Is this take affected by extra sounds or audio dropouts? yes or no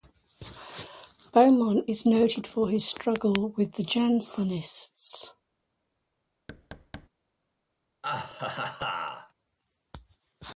yes